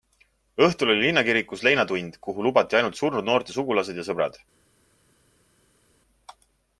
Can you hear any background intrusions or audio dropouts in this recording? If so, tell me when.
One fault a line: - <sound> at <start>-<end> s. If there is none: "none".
none